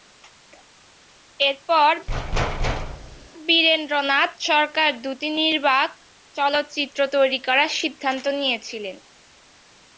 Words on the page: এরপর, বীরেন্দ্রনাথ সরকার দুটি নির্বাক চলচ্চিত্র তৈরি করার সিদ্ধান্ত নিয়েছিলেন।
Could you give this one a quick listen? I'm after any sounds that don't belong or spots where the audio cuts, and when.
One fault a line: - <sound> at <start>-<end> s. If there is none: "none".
- thud at 2.1-3.3 s